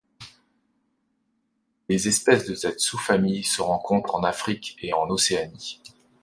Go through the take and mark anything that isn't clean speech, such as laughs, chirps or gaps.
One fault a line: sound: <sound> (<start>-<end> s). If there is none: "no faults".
no faults